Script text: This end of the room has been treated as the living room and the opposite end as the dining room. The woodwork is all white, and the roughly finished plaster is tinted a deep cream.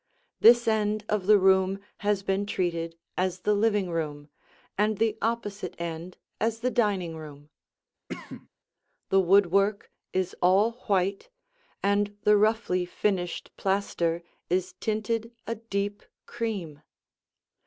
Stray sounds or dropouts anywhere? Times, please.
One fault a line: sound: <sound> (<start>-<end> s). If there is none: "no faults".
sound: cough (8.1-8.5 s)